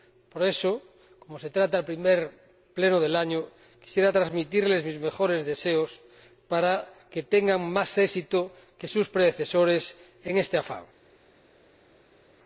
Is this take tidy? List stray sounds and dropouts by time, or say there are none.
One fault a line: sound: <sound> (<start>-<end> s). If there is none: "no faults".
no faults